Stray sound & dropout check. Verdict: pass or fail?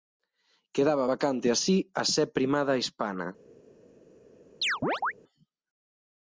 fail